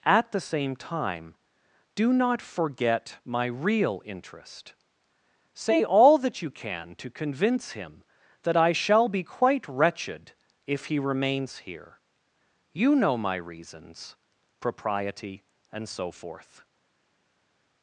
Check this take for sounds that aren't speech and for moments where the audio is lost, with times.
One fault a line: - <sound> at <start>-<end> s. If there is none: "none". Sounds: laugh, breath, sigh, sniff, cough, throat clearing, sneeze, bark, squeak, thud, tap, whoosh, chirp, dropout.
none